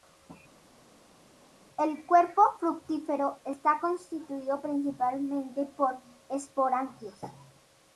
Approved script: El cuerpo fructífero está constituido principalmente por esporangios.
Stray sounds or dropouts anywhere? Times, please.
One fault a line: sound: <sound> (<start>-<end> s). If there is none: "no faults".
no faults